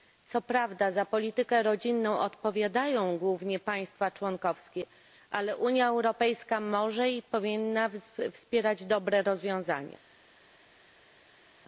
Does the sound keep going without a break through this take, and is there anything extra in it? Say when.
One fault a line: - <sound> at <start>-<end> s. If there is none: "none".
none